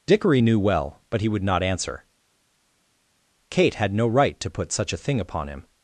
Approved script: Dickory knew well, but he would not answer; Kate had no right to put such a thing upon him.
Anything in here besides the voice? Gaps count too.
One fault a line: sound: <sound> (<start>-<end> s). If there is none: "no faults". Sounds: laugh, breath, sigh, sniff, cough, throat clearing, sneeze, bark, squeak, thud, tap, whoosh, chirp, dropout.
no faults